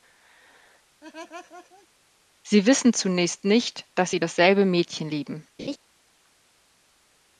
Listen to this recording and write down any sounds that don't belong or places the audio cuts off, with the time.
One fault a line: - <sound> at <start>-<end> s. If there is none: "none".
- laugh at 1.0-1.9 s
- laugh at 5.6-5.8 s